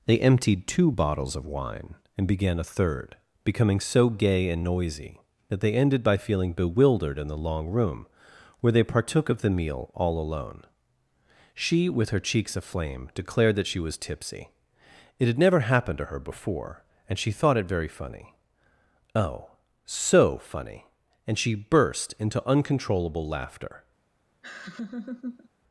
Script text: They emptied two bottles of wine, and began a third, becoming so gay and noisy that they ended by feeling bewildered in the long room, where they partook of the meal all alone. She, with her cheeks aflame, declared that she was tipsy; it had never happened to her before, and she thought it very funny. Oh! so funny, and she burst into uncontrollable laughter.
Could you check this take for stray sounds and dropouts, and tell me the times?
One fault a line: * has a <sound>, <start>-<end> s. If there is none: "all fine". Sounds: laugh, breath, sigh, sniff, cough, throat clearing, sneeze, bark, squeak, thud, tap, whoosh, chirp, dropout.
* has a laugh, 24.4-25.5 s